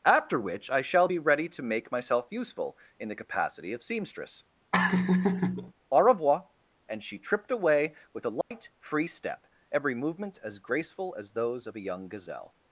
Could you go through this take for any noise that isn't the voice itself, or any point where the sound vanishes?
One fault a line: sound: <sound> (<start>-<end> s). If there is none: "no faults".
sound: laugh (4.7-5.7 s)
sound: dropout (8.4-8.5 s)